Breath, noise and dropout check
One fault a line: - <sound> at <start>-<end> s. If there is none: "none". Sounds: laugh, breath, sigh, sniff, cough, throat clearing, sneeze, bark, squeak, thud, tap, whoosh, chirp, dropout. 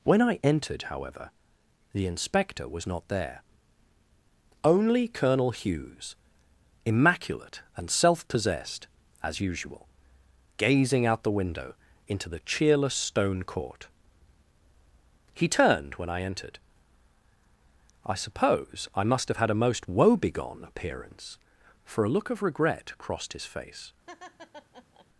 - laugh at 24.1-25.1 s